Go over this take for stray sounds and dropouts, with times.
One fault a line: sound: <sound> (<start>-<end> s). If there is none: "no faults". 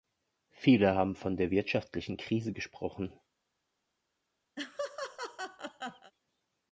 sound: laugh (4.6-6.1 s)